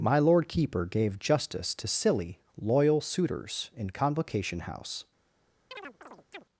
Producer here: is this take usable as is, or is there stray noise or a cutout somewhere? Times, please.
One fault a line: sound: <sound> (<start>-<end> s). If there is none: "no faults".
sound: chirp (5.7-6.4 s)